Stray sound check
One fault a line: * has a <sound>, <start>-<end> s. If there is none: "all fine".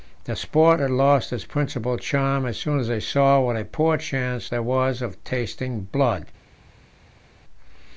all fine